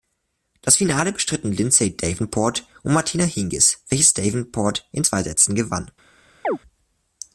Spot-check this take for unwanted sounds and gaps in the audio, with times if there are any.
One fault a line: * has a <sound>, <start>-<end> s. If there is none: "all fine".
* has a chirp, 6.4-6.6 s